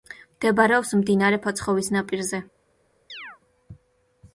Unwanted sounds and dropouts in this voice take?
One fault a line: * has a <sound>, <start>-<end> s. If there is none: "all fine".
* has a chirp, 3.1-3.4 s